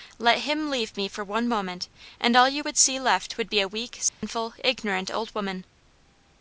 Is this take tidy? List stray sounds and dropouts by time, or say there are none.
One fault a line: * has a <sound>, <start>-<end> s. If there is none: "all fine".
* has a dropout, 4.1-4.2 s